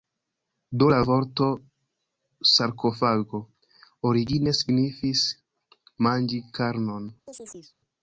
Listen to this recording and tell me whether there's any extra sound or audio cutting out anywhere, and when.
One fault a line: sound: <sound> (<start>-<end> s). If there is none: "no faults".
sound: chirp (7.3-7.8 s)